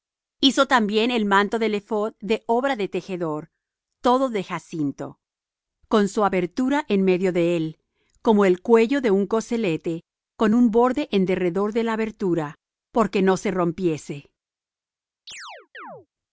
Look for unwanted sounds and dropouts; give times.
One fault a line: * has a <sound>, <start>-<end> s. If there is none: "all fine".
* has a chirp, 15.3-16.1 s